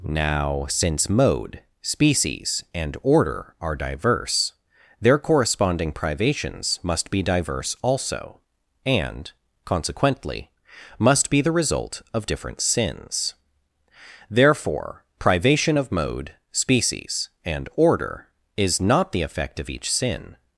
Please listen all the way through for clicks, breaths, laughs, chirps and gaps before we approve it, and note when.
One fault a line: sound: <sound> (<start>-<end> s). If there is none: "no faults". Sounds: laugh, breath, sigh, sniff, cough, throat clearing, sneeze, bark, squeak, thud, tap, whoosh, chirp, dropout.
no faults